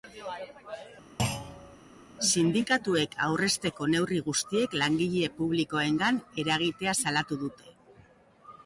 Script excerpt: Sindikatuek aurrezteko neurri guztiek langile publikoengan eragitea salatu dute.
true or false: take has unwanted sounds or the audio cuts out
true